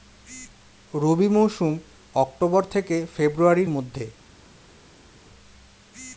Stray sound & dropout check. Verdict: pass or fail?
pass